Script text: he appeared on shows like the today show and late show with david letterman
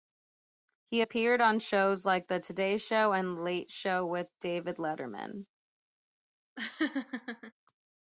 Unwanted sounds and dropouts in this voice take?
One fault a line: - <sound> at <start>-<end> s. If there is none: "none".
- laugh at 6.6-7.5 s